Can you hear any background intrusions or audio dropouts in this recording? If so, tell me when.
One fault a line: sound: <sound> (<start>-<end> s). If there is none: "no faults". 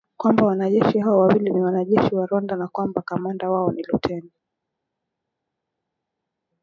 no faults